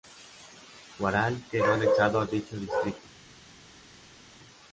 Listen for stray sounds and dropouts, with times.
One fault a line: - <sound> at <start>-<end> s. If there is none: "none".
none